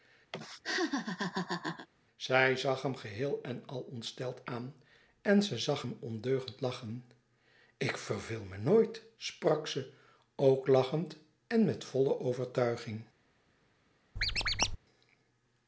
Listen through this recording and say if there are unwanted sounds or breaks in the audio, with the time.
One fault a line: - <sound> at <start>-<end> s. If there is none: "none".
- laugh at 0.3-1.9 s
- squeak at 14.2-14.8 s